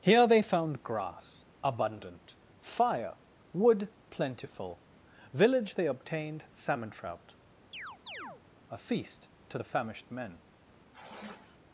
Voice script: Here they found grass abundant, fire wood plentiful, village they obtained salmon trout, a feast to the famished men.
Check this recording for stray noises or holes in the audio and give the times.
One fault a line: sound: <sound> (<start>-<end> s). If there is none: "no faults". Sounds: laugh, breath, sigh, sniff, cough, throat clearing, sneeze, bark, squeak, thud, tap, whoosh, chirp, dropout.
sound: chirp (7.7-8.4 s)
sound: sigh (10.9-11.6 s)